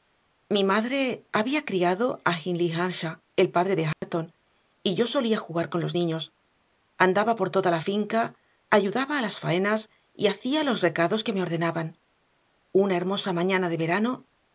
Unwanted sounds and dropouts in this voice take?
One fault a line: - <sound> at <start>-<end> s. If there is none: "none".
- dropout at 3.9-4.0 s